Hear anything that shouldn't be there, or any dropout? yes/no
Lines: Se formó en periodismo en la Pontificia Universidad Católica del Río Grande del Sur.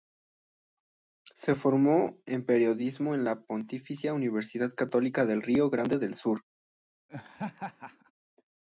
yes